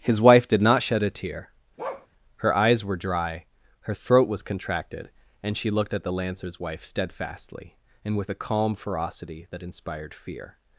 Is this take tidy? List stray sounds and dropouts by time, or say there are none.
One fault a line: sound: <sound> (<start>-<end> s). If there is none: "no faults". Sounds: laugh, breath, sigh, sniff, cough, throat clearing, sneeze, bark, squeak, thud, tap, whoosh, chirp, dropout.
sound: bark (1.8-2.1 s)